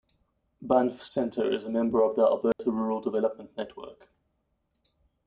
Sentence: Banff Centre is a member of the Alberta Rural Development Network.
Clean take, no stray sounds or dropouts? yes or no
no